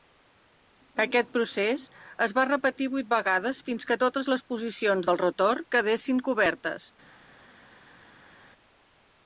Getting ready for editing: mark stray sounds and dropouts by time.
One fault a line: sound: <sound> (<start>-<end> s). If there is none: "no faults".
no faults